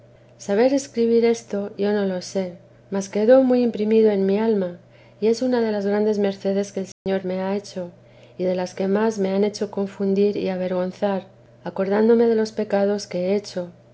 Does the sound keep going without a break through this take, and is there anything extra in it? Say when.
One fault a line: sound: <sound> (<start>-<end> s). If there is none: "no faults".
sound: dropout (6.9-7.1 s)